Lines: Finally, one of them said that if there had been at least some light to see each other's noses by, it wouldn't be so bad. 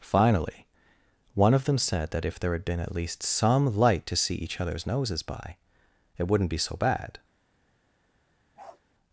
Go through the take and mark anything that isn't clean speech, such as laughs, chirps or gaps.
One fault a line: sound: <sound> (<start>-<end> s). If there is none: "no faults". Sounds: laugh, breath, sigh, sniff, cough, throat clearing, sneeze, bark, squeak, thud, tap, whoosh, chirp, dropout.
sound: bark (8.6-8.8 s)